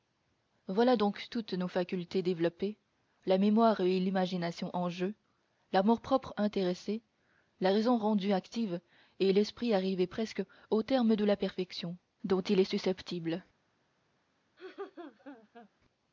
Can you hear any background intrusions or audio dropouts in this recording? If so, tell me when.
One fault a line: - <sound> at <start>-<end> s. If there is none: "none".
- laugh at 14.6-15.7 s